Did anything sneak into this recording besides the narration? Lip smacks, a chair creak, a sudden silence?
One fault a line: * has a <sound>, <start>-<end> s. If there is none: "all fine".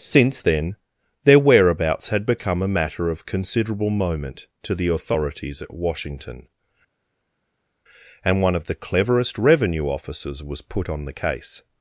all fine